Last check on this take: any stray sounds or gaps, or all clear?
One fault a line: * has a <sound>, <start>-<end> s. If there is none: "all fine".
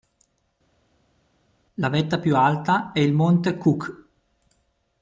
all fine